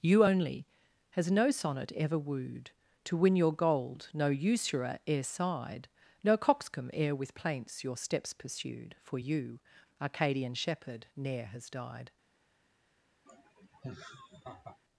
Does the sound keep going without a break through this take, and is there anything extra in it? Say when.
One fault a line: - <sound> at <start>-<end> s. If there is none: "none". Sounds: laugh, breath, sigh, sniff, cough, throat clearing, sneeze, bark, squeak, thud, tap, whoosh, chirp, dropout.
- laugh at 13.3-14.8 s